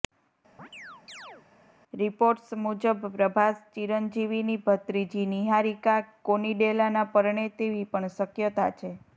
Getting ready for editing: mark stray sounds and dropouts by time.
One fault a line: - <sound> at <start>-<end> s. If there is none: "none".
- chirp at 0.6-1.5 s